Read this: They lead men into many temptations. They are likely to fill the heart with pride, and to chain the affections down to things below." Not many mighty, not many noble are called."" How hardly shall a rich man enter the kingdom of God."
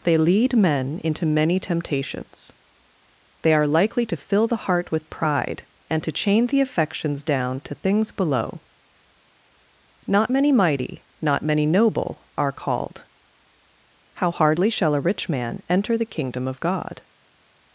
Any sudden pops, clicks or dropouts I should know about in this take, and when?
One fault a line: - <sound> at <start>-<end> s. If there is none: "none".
none